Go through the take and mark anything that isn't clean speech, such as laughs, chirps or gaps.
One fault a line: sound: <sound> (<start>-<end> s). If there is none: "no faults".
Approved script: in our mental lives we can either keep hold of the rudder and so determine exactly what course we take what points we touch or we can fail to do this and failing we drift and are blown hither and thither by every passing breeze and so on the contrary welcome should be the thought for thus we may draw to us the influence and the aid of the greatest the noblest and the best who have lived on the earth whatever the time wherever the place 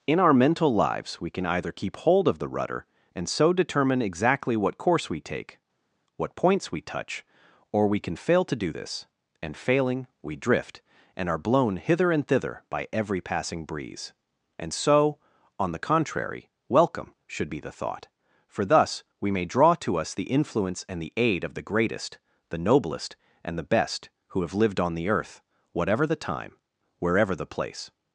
no faults